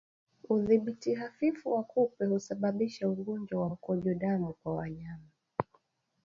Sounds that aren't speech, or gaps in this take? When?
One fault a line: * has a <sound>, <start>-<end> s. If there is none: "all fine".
all fine